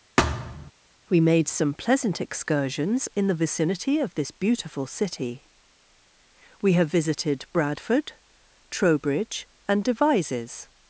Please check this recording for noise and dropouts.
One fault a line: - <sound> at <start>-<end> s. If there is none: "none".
- thud at 0.2-0.7 s